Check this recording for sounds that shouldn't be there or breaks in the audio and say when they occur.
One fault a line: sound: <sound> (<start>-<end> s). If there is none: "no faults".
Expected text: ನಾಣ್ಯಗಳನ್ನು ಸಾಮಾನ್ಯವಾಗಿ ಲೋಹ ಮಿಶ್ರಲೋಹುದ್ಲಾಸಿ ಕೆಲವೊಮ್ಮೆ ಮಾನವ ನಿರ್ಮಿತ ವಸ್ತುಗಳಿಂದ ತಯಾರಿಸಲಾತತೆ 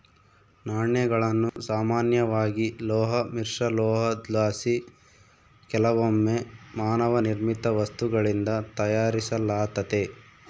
sound: dropout (1.5-1.6 s)